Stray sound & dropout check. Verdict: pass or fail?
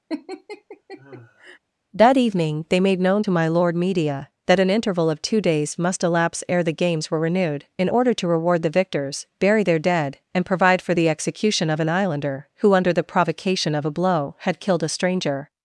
fail